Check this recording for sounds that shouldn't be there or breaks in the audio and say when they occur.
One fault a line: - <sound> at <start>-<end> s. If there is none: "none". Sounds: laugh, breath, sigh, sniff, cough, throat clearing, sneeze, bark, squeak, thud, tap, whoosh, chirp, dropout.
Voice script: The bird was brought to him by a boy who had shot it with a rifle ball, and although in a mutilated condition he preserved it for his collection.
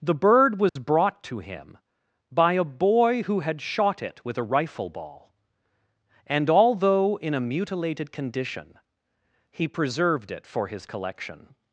- dropout at 0.7-0.8 s